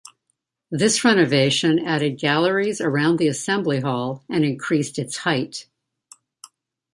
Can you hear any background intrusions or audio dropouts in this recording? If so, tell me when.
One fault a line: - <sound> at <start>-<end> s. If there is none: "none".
none